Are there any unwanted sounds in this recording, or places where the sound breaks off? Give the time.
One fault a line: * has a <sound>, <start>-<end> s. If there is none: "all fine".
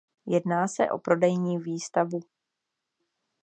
all fine